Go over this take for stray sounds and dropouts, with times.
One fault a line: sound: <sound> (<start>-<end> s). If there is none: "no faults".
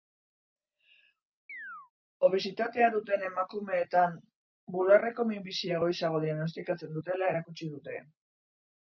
sound: chirp (1.5-1.9 s)